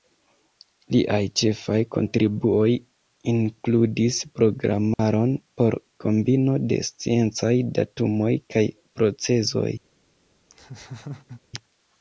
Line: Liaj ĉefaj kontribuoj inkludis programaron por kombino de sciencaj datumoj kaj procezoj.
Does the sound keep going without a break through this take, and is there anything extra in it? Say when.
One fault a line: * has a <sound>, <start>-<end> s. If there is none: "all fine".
* has a dropout, 4.9-5.0 s
* has a laugh, 10.5-11.4 s